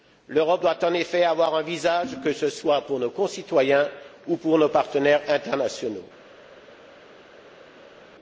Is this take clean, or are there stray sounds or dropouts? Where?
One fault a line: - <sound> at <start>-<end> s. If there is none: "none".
none